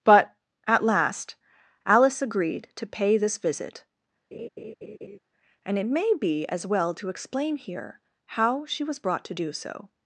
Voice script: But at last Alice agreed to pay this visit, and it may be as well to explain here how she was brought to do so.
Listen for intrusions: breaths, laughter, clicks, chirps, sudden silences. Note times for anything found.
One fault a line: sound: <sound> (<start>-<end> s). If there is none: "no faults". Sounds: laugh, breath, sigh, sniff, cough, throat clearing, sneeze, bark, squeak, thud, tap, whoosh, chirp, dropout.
sound: laugh (4.3-5.2 s)